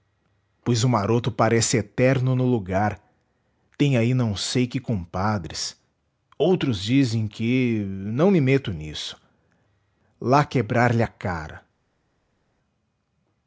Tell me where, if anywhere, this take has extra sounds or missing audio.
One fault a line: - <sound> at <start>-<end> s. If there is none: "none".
none